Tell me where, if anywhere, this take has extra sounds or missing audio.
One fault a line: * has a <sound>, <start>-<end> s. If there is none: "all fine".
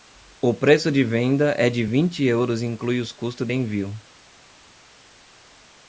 all fine